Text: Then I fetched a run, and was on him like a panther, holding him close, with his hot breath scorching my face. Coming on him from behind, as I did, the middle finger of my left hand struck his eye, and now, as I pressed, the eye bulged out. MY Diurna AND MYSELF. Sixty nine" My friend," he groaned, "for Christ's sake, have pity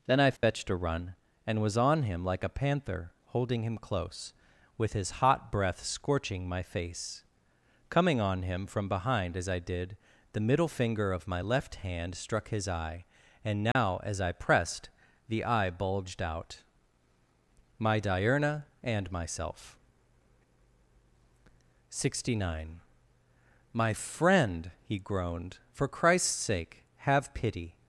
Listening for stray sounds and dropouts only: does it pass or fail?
fail